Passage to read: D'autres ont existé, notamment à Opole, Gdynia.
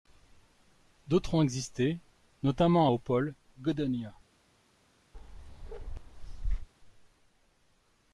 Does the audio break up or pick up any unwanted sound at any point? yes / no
yes